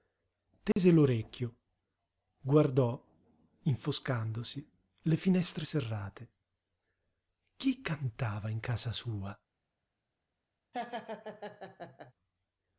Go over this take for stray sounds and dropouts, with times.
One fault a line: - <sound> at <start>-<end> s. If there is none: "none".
- dropout at 0.7-0.8 s
- laugh at 10.7-12.1 s